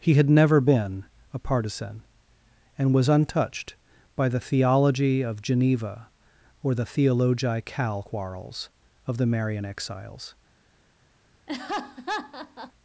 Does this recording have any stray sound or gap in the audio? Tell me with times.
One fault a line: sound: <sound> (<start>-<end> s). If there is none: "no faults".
sound: laugh (11.5-12.7 s)